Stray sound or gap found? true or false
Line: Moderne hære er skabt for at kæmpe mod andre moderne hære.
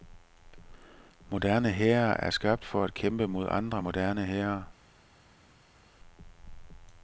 false